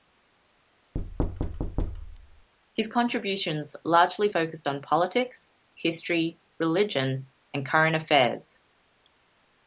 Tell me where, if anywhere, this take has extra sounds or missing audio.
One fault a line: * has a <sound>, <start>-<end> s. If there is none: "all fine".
* has a thud, 0.9-2.5 s